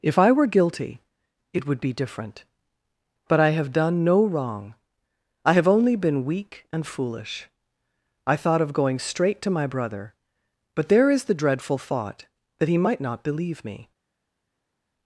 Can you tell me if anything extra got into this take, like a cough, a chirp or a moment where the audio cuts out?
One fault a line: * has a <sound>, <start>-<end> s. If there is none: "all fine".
all fine